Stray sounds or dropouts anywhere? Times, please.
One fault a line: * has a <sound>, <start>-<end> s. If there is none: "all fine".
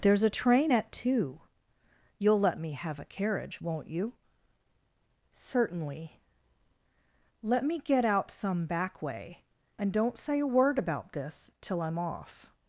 all fine